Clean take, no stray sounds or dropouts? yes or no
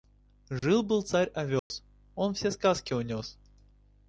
no